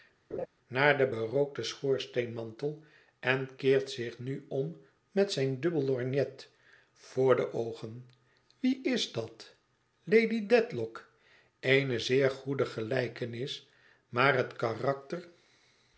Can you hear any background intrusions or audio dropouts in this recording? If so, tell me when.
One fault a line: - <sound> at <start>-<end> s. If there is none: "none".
- laugh at 0.3-0.5 s